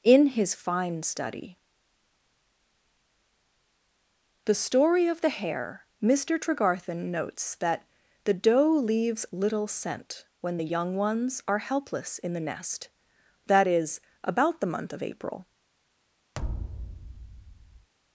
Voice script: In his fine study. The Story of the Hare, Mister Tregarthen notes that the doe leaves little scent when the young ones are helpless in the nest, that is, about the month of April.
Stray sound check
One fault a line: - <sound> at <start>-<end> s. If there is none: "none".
- thud at 16.3-17.9 s